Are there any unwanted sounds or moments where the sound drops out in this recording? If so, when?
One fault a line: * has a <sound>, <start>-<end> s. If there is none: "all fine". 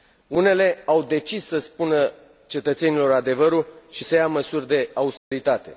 * has a dropout, 5.2-5.3 s